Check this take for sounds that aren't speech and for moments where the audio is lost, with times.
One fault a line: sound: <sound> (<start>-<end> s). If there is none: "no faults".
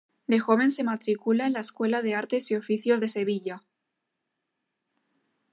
no faults